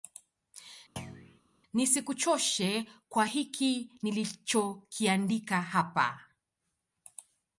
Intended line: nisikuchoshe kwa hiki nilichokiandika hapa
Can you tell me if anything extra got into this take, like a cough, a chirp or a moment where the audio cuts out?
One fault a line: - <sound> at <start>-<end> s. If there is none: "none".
- thud at 1.0-1.4 s